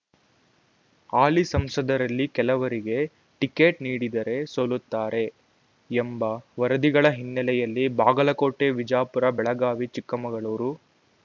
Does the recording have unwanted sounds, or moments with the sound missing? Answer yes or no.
no